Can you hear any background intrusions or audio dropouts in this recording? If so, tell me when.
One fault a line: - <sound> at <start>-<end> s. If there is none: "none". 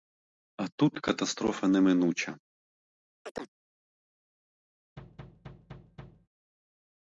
- chirp at 3.2-3.5 s
- thud at 5.0-6.3 s